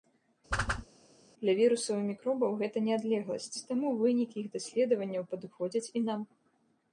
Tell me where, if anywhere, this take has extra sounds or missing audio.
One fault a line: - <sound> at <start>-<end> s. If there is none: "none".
- whoosh at 0.5-0.9 s